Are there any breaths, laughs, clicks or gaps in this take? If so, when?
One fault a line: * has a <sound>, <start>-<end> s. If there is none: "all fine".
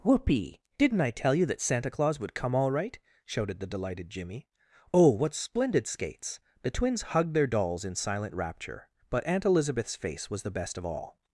all fine